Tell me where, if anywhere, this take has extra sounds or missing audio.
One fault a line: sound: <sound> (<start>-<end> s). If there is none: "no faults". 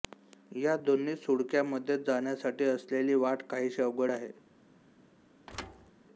sound: thud (5.5-5.9 s)